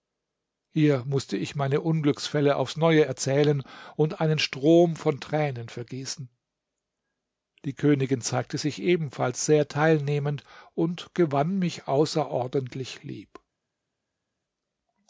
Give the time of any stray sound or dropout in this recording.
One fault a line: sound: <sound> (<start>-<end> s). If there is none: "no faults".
no faults